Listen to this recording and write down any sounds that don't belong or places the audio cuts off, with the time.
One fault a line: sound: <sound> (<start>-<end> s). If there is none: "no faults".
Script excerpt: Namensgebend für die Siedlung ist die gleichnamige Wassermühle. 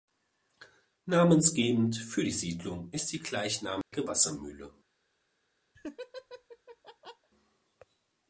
sound: dropout (3.8-3.9 s)
sound: laugh (5.7-7.3 s)